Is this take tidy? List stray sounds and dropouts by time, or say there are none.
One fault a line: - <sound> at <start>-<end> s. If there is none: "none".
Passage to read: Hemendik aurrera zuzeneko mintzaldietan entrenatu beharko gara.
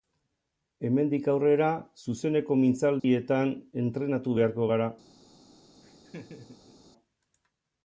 - dropout at 3.0-3.0 s
- laugh at 5.8-6.8 s